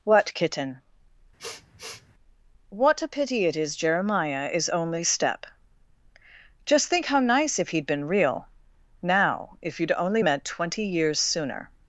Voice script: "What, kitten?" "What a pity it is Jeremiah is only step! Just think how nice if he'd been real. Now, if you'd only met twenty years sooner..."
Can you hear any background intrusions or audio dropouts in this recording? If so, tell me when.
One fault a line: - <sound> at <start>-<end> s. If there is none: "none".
- sniff at 1.4-2.1 s